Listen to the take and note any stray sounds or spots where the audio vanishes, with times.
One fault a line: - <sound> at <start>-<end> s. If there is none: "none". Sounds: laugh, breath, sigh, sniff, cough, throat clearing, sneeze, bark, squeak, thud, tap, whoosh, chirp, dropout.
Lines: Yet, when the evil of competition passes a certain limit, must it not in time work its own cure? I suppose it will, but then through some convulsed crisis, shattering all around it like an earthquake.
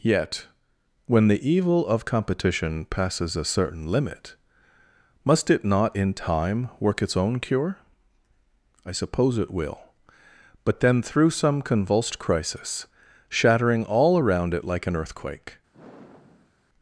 - sigh at 15.7-16.5 s